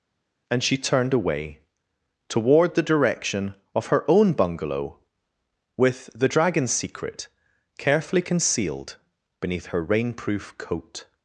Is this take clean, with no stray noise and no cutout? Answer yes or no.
yes